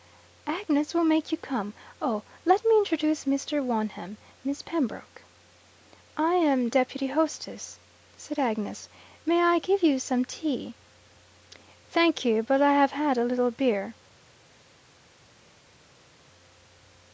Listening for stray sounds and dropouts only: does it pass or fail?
pass